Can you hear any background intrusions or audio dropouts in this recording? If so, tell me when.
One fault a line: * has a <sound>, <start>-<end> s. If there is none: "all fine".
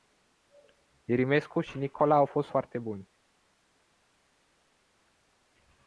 all fine